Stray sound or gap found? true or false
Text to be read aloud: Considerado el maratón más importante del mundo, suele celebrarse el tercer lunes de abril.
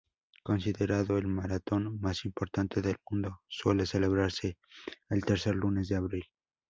false